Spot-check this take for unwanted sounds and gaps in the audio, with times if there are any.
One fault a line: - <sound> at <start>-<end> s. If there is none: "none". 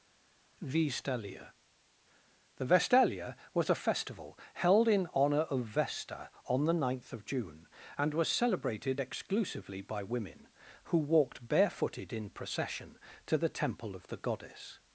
none